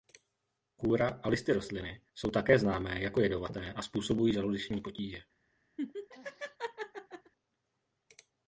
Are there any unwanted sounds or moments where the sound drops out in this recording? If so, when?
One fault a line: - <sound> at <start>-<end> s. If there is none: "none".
- laugh at 5.8-7.3 s